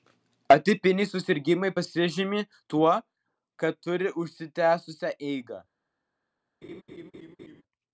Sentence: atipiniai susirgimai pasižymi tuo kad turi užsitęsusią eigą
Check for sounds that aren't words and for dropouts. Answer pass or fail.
fail